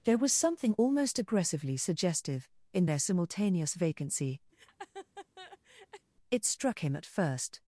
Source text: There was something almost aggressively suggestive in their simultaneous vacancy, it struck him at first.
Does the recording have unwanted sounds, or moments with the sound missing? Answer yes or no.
yes